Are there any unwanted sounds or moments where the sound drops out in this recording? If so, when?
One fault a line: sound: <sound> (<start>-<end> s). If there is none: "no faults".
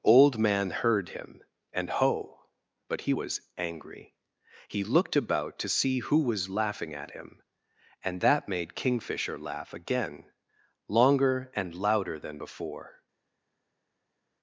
no faults